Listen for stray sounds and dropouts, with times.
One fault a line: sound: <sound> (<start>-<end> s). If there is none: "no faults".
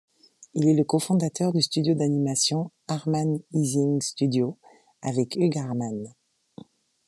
no faults